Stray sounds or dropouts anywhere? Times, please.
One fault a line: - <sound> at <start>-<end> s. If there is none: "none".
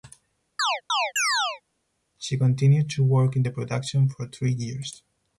- chirp at 0.6-1.6 s